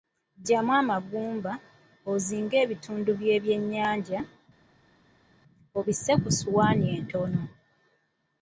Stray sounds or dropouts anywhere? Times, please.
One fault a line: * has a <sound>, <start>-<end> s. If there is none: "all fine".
all fine